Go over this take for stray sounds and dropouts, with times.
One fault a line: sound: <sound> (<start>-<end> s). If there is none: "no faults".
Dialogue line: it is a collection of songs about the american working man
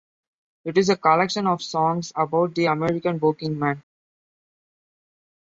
no faults